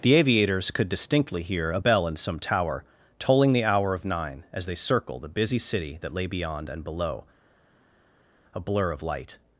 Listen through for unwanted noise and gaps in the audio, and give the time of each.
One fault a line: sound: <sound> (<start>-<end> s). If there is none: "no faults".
no faults